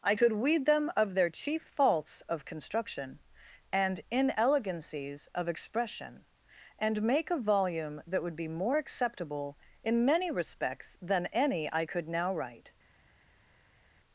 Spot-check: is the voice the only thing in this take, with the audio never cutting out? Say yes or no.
yes